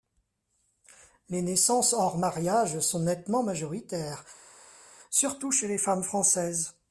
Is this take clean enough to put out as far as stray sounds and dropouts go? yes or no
yes